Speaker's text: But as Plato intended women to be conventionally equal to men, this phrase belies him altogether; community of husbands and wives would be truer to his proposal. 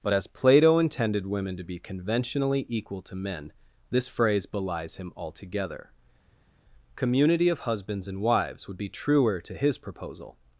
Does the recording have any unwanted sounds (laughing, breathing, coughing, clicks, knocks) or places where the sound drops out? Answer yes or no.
no